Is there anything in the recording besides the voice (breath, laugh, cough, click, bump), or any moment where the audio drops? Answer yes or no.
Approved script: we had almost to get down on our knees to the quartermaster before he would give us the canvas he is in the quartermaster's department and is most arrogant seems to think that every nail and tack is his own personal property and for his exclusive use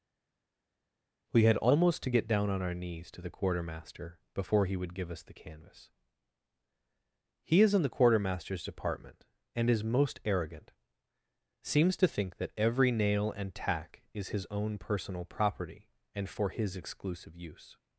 no